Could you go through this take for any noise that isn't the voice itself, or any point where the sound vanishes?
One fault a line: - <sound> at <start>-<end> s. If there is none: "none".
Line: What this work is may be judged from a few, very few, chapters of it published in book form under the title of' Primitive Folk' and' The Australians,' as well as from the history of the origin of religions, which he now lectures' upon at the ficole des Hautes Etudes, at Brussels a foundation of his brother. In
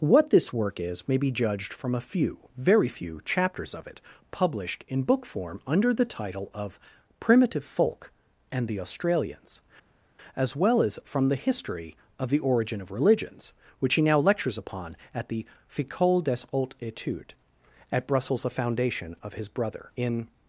none